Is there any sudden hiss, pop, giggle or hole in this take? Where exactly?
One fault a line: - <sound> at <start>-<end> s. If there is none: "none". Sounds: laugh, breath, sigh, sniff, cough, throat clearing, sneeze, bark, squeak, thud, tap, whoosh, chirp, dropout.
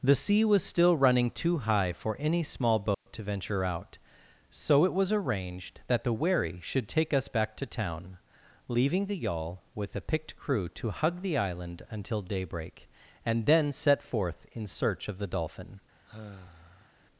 - dropout at 2.9-3.1 s
- sigh at 16.1-16.9 s